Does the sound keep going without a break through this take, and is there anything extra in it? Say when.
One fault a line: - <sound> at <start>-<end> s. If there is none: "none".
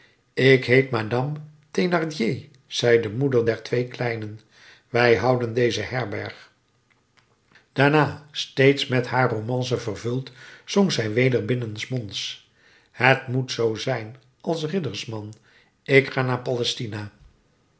none